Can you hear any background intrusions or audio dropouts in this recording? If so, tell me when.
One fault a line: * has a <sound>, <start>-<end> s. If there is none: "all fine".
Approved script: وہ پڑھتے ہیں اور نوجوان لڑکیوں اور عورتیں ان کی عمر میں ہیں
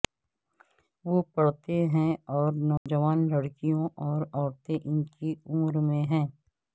* has a dropout, 2.8-2.9 s